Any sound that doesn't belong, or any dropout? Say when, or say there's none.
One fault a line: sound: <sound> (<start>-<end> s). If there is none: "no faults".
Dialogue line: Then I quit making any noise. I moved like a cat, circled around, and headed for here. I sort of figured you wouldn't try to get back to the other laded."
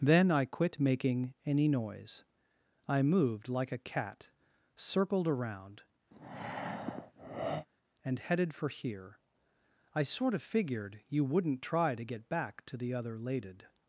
sound: breath (6.1-7.7 s)